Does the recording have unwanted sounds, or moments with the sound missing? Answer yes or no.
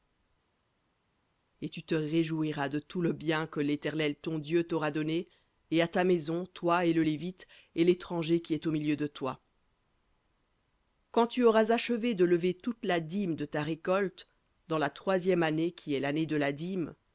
no